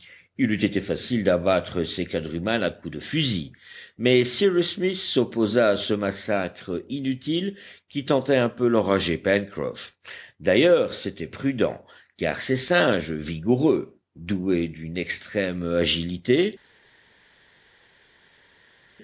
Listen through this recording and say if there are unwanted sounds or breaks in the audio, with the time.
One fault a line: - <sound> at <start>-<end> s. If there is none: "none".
none